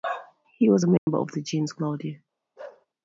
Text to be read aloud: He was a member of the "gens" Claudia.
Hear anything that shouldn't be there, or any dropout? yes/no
yes